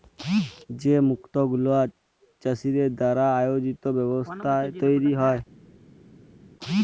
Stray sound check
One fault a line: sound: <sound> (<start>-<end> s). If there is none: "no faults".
no faults